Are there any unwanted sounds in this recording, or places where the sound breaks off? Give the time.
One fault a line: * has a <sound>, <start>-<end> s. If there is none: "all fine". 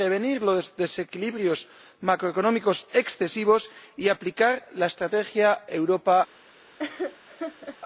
* has a laugh, 6.8-7.8 s